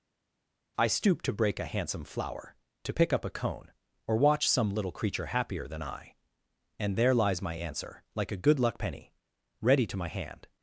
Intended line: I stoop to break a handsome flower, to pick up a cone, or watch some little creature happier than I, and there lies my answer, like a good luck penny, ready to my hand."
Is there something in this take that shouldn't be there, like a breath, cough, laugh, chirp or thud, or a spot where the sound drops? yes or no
no